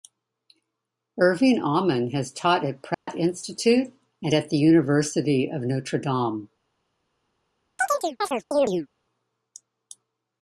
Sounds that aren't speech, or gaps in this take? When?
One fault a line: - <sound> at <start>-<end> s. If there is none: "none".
- dropout at 2.9-3.1 s
- chirp at 7.8-8.9 s